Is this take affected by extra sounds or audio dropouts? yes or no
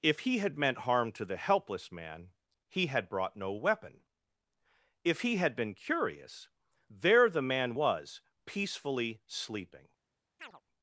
yes